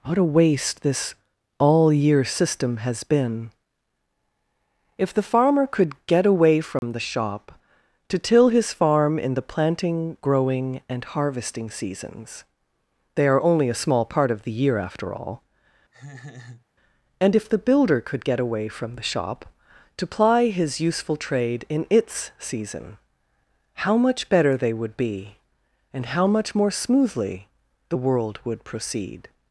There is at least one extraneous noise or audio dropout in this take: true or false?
true